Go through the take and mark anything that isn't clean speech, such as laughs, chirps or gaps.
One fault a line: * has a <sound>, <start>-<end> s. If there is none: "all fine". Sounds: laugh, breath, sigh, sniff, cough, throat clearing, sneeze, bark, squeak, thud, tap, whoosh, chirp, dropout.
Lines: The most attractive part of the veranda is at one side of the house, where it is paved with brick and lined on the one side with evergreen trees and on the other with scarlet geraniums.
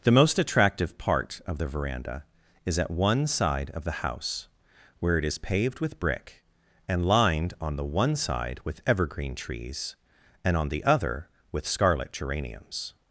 all fine